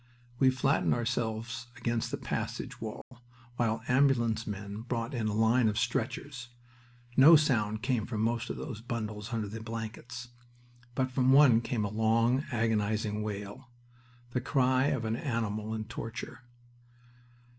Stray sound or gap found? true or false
true